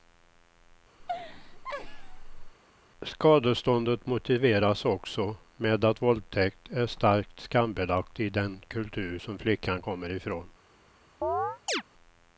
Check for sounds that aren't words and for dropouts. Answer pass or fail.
fail